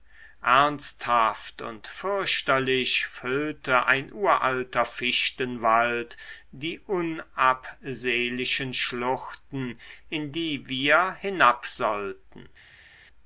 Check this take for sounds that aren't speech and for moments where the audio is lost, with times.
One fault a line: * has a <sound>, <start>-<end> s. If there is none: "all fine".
all fine